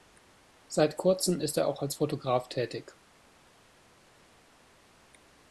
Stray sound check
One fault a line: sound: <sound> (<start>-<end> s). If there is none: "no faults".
no faults